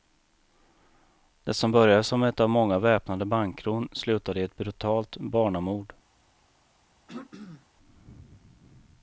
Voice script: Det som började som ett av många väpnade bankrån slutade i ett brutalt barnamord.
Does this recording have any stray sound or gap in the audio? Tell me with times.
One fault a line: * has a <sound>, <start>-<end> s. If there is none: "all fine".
* has a throat clearing, 7.1-7.7 s